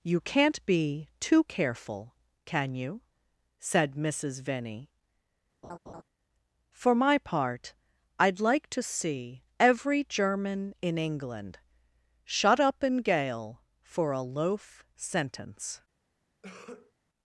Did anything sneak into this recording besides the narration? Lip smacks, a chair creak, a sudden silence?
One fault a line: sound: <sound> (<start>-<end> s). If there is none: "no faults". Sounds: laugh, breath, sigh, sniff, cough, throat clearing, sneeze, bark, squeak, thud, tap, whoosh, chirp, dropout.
sound: laugh (5.6-6.0 s)
sound: cough (16.4-16.9 s)